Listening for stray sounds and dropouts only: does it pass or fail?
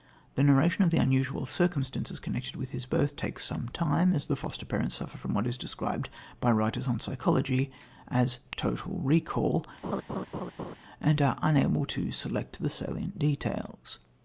fail